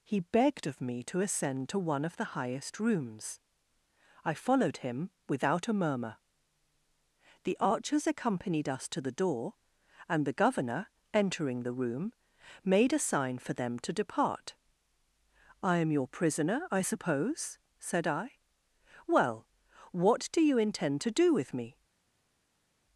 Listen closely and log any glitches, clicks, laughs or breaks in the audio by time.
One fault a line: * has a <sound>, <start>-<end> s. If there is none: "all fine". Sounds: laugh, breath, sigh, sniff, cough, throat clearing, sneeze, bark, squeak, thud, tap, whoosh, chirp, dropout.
all fine